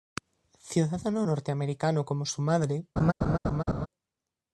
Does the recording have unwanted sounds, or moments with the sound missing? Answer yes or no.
yes